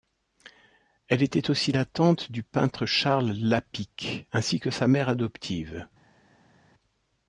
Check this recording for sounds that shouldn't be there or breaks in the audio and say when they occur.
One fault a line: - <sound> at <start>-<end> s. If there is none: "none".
none